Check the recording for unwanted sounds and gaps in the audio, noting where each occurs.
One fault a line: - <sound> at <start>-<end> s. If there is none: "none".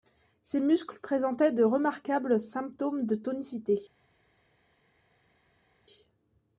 none